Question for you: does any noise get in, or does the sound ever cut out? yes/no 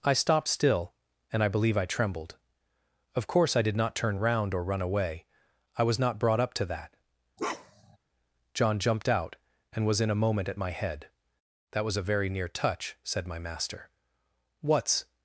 yes